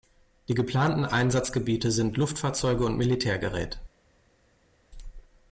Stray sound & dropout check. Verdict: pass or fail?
pass